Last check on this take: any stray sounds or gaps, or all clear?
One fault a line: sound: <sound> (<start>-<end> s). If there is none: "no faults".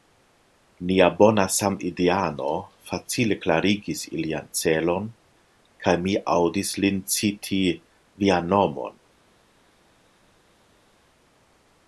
no faults